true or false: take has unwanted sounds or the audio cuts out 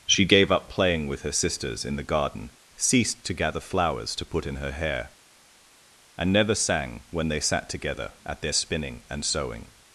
false